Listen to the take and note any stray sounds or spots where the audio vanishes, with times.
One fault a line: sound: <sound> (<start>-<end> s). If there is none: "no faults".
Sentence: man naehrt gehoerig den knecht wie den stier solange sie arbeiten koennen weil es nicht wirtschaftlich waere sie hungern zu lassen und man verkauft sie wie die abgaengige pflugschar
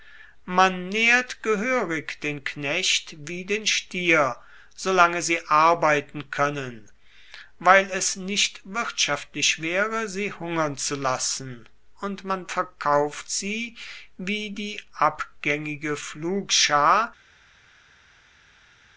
no faults